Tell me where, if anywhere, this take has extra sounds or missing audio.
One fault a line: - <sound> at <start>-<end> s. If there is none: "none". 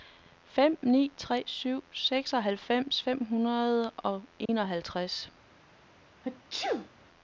- dropout at 4.5-4.5 s
- sneeze at 6.2-6.9 s